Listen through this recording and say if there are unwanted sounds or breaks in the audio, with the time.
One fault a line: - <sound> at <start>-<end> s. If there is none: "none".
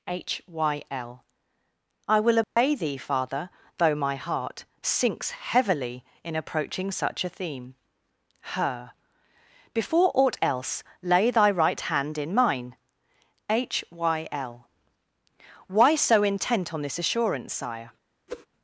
- dropout at 2.4-2.6 s
- whoosh at 18.3-18.5 s